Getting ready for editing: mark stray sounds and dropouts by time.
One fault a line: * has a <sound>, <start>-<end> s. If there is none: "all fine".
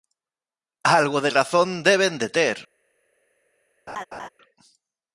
* has a laugh, 3.9-4.3 s